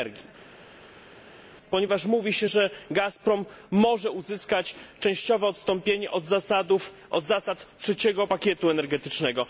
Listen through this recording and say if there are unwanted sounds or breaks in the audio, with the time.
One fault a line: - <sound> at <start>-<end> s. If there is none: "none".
none